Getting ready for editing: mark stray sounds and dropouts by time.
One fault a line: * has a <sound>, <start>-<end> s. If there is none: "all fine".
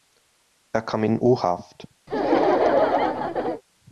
* has a laugh, 2.1-3.6 s